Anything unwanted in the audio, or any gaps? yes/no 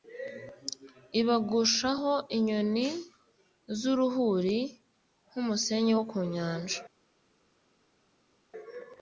no